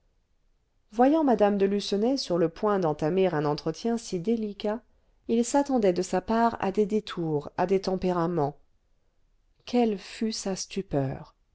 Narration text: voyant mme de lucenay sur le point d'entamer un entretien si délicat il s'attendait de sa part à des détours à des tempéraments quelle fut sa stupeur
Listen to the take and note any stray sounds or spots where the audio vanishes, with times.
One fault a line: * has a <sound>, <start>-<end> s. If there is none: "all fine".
all fine